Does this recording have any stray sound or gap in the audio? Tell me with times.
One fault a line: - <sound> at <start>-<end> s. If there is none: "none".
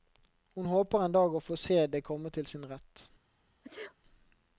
- sneeze at 3.6-4.0 s